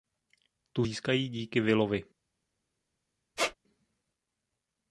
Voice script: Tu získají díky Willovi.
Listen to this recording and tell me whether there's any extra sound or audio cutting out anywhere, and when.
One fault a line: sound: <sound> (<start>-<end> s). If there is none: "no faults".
sound: squeak (3.4-3.5 s)